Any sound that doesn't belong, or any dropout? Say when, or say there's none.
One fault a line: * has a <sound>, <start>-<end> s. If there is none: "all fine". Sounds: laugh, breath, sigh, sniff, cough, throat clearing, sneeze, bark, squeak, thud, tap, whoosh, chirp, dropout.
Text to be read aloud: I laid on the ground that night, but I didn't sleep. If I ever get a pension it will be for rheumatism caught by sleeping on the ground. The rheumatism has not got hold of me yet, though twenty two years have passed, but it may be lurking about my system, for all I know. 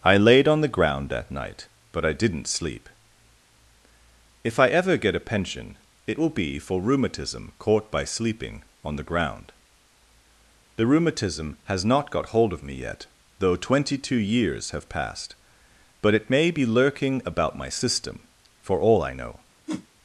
* has a whoosh, 19.7-19.9 s